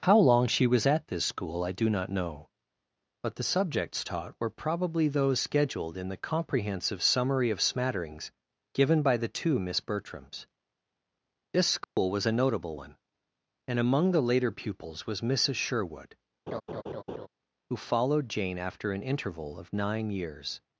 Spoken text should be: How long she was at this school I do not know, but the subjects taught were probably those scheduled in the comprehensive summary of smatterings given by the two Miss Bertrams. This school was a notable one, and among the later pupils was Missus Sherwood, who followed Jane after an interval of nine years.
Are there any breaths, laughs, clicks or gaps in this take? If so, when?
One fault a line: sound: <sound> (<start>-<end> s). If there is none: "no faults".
sound: dropout (11.8-12.0 s)
sound: laugh (16.5-17.3 s)